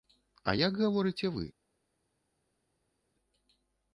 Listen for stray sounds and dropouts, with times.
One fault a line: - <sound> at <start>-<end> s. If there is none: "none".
none